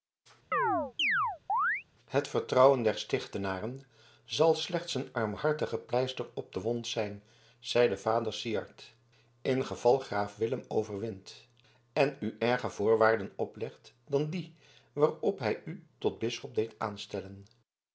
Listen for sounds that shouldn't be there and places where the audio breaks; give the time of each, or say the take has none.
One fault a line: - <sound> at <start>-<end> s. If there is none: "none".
- chirp at 0.5-1.8 s